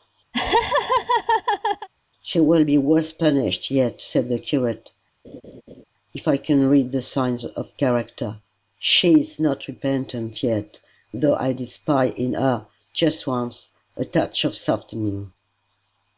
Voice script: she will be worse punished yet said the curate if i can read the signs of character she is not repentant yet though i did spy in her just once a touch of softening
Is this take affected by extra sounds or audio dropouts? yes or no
yes